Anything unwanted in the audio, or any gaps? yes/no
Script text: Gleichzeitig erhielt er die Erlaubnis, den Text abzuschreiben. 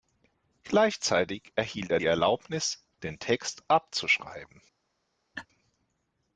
yes